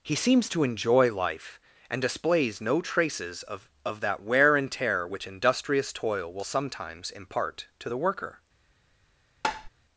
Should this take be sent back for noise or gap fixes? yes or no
yes